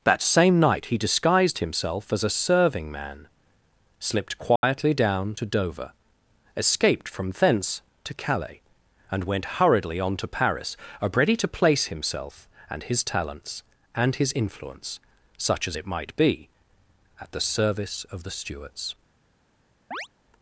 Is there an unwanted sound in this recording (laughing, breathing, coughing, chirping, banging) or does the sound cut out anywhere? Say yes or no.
yes